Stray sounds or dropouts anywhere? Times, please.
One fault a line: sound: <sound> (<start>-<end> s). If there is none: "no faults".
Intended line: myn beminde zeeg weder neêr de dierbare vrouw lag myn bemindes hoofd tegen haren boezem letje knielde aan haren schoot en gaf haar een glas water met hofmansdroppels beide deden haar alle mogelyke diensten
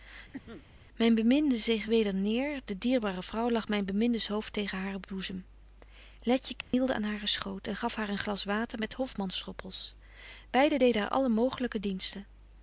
sound: cough (0.3-0.7 s)
sound: dropout (6.6-6.7 s)